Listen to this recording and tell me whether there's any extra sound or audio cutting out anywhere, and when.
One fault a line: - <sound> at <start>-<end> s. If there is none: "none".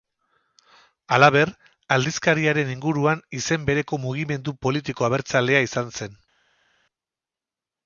none